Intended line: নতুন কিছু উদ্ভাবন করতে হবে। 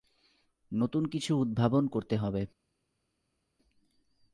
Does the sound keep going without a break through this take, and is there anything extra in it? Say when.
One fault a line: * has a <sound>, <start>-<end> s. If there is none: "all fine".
all fine